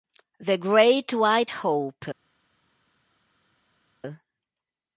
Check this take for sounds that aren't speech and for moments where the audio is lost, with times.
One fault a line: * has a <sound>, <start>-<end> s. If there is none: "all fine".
all fine